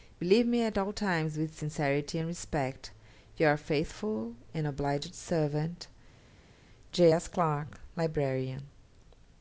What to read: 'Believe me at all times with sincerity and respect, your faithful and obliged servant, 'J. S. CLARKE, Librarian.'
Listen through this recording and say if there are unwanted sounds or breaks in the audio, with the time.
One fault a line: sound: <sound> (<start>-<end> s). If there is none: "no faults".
no faults